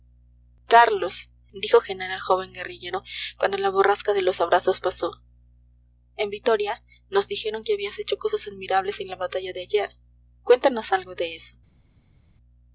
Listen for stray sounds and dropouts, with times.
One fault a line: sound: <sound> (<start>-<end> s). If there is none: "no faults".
no faults